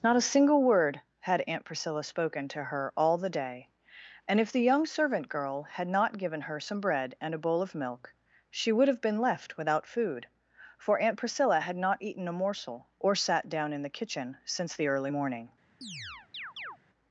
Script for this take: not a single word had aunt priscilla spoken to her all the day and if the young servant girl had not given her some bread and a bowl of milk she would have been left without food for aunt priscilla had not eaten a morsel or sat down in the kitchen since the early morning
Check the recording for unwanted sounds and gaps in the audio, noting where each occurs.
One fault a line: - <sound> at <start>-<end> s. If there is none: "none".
- chirp at 15.8-16.8 s